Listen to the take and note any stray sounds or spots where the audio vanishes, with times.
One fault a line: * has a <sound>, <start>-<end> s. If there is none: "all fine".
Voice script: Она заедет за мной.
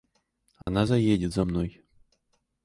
* has a dropout, 0.6-0.7 s